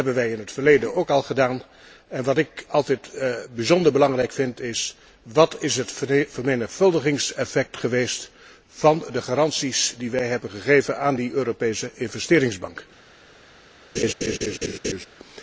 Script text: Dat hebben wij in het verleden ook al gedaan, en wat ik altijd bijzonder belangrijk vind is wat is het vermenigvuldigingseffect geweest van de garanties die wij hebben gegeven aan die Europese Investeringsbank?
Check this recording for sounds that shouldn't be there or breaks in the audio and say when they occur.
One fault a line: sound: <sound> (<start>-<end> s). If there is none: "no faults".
sound: laugh (14.0-15.1 s)